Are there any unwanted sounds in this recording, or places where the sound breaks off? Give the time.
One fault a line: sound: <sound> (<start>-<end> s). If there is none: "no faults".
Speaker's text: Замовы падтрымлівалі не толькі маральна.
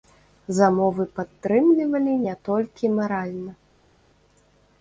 no faults